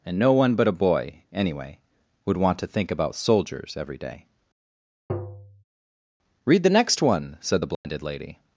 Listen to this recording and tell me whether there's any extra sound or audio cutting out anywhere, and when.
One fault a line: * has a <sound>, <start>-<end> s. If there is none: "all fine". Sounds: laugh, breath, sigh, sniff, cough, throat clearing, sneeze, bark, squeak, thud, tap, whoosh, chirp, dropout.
* has a tap, 5.1-5.6 s
* has a dropout, 7.7-7.8 s